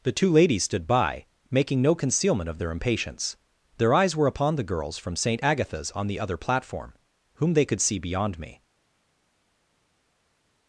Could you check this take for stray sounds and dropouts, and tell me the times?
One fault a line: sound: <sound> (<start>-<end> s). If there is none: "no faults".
no faults